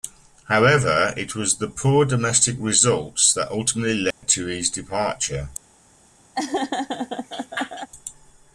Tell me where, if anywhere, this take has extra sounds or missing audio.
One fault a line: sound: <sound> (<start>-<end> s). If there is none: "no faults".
sound: dropout (4.1-4.2 s)
sound: laugh (6.3-7.9 s)